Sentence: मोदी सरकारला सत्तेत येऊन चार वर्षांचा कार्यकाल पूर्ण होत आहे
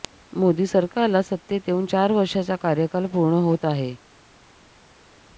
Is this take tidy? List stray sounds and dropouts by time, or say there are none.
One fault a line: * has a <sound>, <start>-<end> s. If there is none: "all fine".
all fine